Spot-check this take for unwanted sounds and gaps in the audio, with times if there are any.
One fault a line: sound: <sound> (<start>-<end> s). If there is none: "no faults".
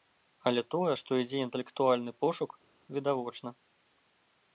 no faults